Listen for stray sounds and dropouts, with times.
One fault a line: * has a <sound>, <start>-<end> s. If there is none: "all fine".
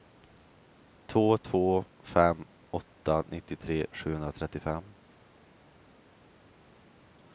all fine